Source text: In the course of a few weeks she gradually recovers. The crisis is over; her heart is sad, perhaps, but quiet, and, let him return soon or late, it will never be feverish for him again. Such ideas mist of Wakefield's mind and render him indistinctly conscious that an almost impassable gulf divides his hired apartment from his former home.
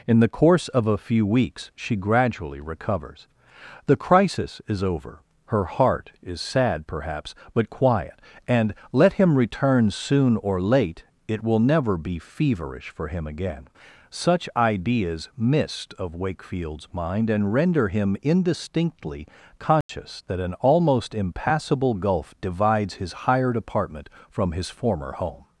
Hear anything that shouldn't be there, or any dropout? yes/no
yes